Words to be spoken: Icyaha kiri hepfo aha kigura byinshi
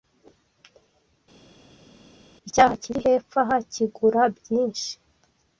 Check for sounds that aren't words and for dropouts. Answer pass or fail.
pass